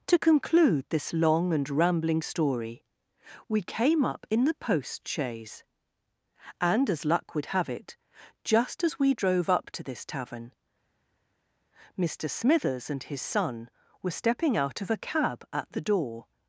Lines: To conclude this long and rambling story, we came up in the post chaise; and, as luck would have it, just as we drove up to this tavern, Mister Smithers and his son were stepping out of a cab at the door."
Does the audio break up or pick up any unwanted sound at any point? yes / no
no